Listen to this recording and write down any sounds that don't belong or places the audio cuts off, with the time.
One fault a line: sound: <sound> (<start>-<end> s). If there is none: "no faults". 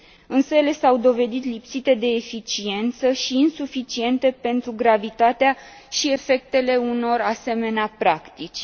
no faults